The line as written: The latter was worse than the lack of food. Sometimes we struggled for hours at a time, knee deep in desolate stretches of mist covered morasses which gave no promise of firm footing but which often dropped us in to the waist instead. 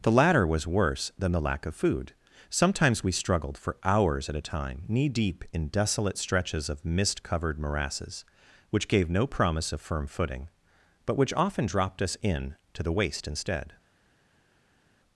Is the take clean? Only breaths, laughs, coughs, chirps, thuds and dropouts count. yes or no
yes